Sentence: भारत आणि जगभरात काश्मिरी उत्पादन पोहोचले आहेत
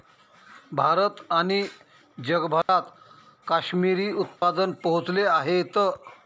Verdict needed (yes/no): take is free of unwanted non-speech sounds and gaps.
no